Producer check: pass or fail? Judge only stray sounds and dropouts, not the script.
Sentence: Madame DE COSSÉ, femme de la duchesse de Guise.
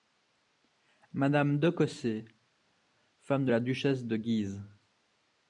pass